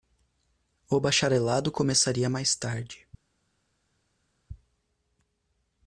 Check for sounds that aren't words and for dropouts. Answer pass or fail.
pass